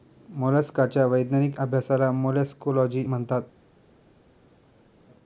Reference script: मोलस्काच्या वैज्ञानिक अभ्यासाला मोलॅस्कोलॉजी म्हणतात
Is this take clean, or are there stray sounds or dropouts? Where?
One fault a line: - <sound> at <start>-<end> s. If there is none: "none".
none